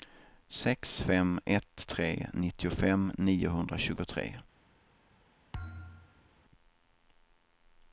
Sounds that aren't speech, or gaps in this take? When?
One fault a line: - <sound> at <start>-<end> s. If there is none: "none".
- thud at 5.5-6.3 s